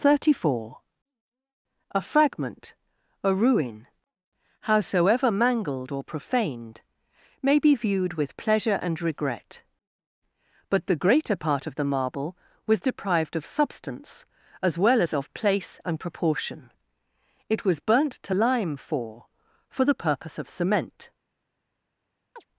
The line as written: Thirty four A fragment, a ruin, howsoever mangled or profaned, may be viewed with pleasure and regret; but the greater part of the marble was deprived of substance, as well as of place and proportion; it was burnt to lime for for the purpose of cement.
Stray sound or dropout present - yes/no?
yes